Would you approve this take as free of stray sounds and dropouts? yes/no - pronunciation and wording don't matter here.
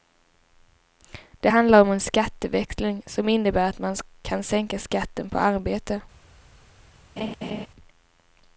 no